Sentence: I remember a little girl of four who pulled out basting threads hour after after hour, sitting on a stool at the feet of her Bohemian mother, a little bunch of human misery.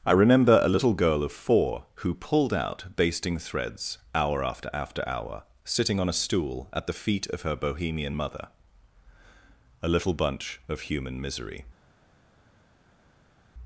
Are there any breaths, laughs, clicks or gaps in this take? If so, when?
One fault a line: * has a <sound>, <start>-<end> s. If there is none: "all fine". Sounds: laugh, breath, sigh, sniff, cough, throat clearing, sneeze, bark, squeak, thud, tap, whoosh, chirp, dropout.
all fine